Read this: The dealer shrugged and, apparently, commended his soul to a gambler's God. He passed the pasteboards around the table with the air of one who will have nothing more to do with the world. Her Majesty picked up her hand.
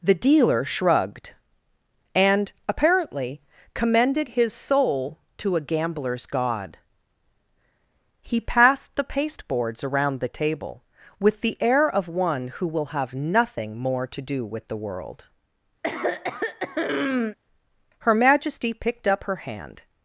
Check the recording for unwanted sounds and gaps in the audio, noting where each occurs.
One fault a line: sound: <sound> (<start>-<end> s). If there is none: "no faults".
sound: throat clearing (15.8-17.4 s)